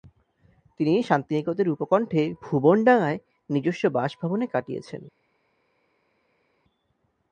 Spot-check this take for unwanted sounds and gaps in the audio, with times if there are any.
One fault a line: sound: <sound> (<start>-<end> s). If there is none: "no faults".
no faults